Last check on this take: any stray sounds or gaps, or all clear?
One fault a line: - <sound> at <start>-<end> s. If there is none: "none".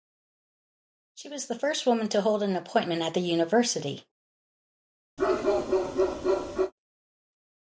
- bark at 5.2-6.7 s